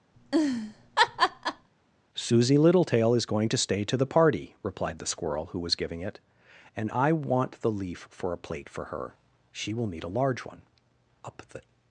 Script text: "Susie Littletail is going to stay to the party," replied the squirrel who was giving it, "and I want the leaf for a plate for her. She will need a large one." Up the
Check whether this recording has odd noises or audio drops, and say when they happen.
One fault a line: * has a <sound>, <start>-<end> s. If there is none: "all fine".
* has a laugh, 0.1-1.7 s